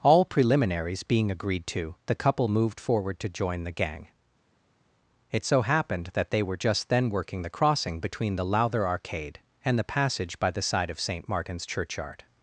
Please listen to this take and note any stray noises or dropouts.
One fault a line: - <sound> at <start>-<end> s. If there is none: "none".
none